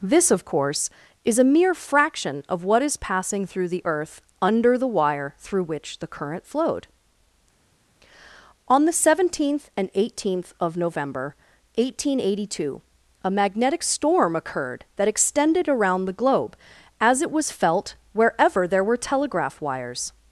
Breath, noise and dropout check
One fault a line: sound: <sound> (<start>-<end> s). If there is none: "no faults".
no faults